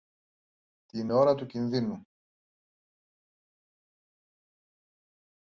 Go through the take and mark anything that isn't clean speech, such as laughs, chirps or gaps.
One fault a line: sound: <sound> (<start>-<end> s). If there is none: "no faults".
no faults